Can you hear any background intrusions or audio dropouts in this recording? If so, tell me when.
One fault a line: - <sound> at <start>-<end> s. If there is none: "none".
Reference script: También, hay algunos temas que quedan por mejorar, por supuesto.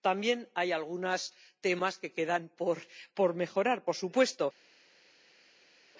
none